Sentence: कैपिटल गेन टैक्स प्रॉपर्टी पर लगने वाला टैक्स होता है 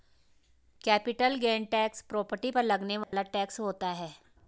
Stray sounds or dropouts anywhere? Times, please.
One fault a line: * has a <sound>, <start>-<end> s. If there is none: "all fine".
* has a dropout, 3.0-3.1 s